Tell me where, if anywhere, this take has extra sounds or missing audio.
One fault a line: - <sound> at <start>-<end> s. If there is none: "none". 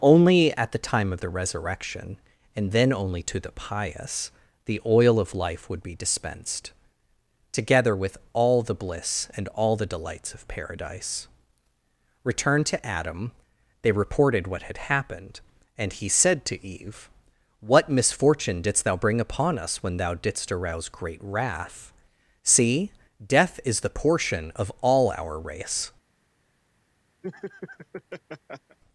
- laugh at 27.2-28.8 s